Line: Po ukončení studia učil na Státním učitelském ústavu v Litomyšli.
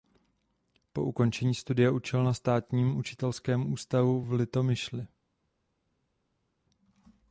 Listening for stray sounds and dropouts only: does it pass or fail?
pass